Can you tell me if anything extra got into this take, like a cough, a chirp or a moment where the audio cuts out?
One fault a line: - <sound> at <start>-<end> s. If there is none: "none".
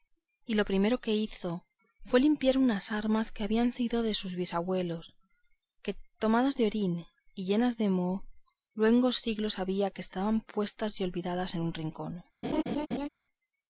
- laugh at 12.4-13.1 s